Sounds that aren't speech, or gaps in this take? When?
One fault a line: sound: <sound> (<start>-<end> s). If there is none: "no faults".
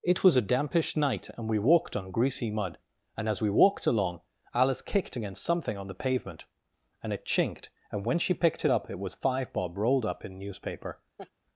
sound: laugh (11.2-11.3 s)